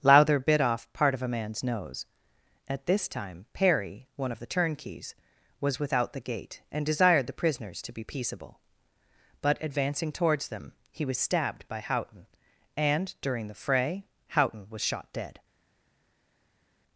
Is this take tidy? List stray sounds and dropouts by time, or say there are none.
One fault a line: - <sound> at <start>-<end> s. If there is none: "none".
none